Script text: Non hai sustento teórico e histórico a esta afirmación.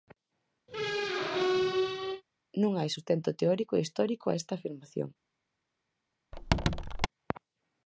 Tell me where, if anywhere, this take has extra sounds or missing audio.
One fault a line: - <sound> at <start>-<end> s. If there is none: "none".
- squeak at 0.7-2.2 s
- squeak at 6.3-7.1 s